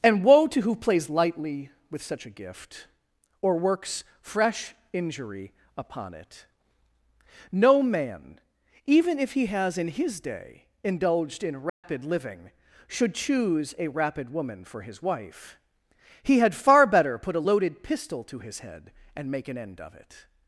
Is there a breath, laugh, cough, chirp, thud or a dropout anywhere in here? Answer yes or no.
yes